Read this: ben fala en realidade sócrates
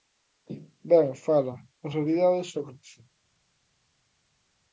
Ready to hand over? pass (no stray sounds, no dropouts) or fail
pass